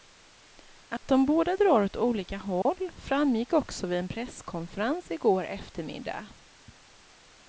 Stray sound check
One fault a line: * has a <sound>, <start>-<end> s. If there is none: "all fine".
* has a dropout, 1.0-1.0 s
* has a dropout, 2.6-2.7 s